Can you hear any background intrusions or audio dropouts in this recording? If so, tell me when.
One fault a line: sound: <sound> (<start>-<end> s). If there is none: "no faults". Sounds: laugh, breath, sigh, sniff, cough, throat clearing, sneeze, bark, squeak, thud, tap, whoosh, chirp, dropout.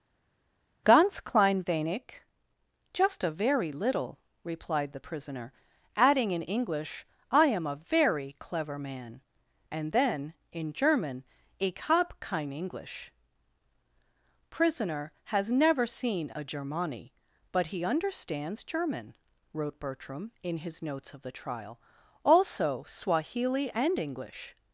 no faults